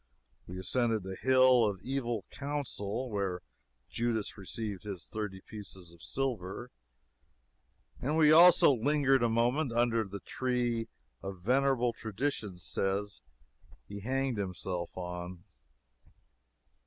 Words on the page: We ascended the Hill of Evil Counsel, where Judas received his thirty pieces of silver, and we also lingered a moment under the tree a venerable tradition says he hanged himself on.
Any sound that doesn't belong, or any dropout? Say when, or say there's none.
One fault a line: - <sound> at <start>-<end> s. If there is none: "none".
none